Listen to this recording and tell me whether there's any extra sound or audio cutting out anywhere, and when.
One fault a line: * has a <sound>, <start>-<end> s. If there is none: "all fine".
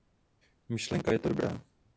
all fine